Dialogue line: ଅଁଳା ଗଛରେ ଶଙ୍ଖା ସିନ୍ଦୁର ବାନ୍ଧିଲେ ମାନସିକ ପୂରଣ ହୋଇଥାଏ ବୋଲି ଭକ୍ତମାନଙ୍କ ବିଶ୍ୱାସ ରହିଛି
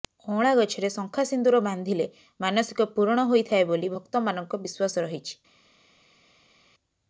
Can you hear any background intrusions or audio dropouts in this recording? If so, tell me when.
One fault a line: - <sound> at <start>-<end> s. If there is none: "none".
none